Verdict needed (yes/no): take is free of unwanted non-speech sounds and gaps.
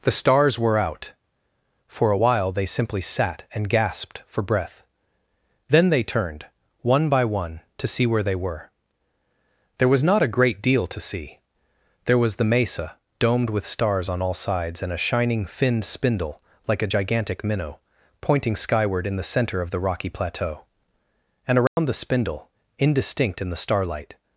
no